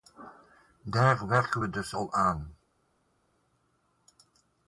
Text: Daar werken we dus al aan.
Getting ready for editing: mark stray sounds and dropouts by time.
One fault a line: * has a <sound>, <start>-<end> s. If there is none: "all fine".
all fine